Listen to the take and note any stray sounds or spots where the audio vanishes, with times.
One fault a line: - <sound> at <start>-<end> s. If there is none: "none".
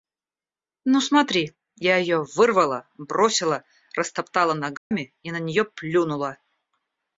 - dropout at 4.8-4.9 s